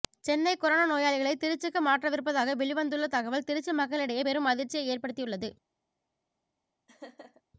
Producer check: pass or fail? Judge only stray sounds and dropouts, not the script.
fail